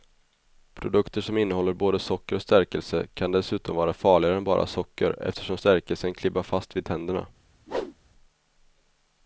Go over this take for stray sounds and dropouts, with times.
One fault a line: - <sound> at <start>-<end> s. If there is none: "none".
- whoosh at 7.7-8.0 s